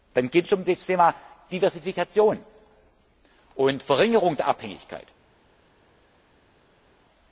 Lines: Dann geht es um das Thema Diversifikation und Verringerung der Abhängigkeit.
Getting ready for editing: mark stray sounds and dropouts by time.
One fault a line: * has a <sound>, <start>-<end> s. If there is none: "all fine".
all fine